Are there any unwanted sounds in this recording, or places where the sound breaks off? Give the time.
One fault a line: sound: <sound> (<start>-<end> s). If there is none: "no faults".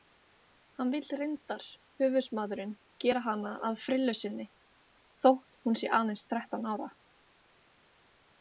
no faults